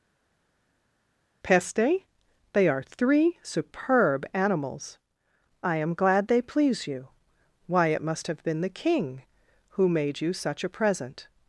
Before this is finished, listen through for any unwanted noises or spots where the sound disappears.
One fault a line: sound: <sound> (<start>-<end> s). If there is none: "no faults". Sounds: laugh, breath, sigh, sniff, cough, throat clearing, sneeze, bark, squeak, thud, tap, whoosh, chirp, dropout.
no faults